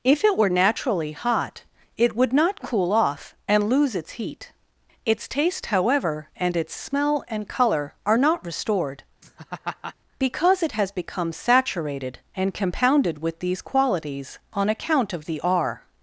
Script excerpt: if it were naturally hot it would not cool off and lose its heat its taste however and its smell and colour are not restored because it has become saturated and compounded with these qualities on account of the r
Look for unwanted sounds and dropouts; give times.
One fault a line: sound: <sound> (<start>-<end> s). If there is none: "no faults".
sound: laugh (9.2-10.0 s)